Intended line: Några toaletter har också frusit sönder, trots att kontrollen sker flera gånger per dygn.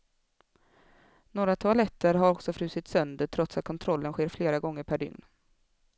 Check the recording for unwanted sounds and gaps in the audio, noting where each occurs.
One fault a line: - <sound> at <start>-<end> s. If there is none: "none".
none